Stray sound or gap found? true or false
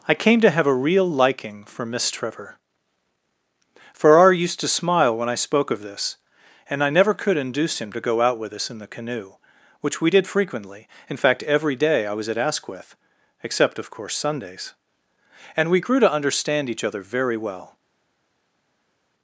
false